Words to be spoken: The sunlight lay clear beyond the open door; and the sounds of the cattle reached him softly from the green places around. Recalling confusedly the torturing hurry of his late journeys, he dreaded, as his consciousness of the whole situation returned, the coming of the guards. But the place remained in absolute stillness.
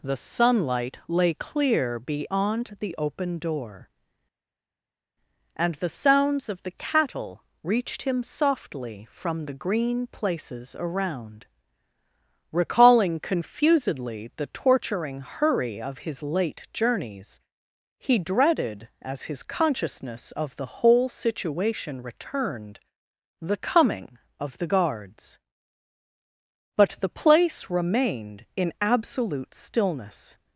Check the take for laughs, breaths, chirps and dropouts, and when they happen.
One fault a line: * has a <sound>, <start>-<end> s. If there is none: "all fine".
all fine